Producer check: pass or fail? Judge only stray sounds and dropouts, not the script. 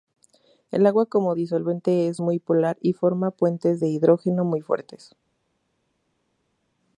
pass